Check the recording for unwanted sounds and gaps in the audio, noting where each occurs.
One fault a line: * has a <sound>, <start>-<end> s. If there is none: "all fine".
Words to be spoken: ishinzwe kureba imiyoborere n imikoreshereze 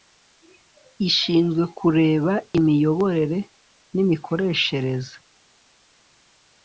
all fine